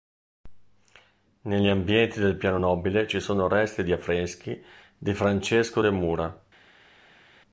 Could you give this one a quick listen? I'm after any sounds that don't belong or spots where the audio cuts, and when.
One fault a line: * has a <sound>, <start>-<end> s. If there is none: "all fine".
all fine